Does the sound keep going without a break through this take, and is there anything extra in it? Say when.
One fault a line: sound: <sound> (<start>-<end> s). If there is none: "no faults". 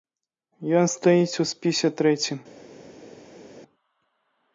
no faults